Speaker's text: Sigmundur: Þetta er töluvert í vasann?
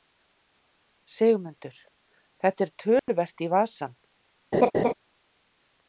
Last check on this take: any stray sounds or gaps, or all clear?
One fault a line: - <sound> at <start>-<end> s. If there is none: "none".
- dropout at 3.0-3.1 s
- laugh at 4.5-4.9 s